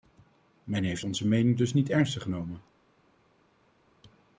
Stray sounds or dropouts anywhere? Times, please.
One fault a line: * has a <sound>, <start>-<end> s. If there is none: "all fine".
all fine